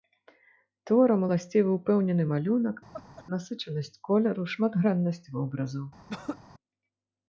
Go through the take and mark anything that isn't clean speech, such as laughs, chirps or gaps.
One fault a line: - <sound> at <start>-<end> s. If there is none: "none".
- laugh at 2.9-3.2 s
- throat clearing at 6.1-6.4 s